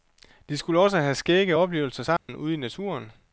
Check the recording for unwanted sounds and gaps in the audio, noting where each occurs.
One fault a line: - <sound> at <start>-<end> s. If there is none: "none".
- dropout at 2.2-2.3 s